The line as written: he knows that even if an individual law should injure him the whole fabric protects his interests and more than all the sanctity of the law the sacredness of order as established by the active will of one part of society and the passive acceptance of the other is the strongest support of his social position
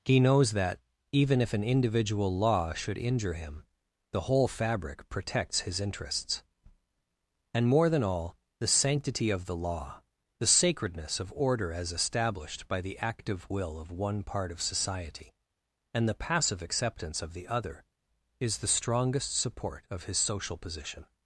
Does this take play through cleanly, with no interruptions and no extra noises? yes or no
yes